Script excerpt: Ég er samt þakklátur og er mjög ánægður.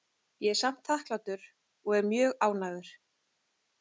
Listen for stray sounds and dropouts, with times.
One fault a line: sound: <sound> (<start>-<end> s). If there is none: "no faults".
no faults